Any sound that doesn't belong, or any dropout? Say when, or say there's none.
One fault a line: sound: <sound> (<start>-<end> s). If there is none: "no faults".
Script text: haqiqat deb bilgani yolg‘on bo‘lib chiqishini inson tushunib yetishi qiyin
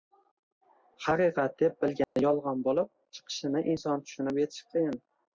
sound: dropout (2.0-2.2 s)